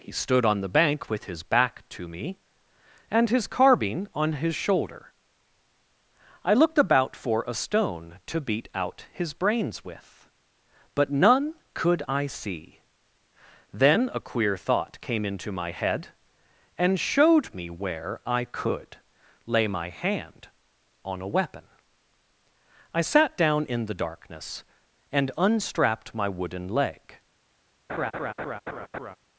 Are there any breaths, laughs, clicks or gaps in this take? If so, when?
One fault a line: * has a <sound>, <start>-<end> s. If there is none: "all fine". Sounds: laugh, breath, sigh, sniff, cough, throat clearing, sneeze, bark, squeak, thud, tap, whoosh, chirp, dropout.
* has a laugh, 27.9-29.2 s